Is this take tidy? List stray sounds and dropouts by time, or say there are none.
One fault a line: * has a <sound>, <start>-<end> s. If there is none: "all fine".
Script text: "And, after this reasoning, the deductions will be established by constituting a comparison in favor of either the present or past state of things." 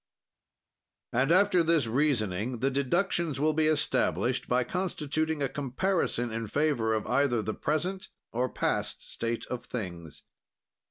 all fine